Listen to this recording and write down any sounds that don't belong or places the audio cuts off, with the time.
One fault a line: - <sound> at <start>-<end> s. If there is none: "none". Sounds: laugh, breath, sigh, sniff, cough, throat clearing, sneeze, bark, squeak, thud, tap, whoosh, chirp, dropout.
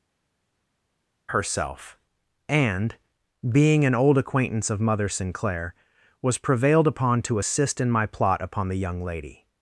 none